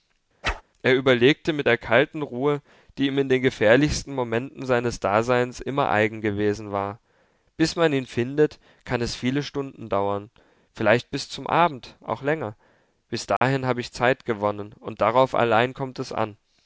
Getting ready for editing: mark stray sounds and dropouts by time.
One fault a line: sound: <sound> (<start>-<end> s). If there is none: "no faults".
sound: whoosh (0.4-0.6 s)
sound: dropout (13.4-13.4 s)